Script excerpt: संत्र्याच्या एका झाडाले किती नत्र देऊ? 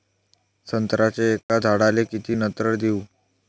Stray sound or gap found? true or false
true